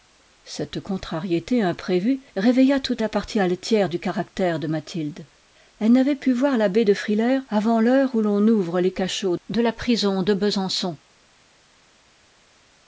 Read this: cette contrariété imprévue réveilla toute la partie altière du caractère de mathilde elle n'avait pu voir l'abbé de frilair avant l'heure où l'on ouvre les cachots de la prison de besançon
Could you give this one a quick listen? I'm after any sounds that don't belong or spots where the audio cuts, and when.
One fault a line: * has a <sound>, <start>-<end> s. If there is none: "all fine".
all fine